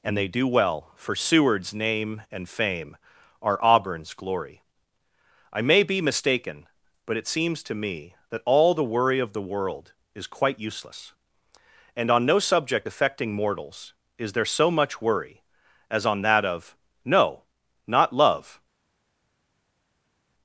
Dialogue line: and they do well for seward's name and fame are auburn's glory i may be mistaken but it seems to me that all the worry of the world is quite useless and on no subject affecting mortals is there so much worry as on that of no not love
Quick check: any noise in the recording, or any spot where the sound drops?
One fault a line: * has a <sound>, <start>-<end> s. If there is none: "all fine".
all fine